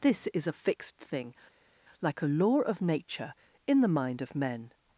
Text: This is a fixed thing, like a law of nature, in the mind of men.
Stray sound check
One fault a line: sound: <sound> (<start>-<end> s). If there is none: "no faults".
no faults